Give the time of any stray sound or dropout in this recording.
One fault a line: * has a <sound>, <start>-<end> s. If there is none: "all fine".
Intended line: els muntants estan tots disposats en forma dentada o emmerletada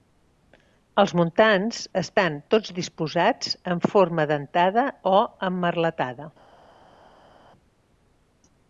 all fine